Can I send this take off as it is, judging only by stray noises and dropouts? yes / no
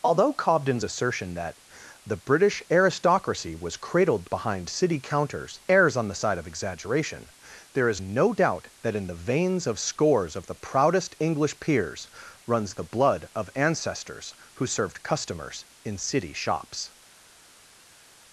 yes